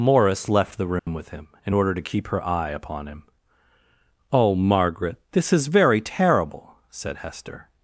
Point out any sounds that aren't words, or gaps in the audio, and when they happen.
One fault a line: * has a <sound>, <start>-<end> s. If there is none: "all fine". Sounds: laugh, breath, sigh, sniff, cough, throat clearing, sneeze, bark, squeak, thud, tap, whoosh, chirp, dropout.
* has a dropout, 1.0-1.1 s